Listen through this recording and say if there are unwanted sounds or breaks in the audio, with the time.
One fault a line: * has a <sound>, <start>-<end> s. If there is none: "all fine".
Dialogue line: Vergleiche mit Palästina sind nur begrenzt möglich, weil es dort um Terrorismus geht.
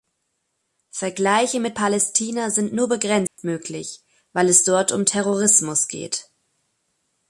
* has a dropout, 3.3-3.4 s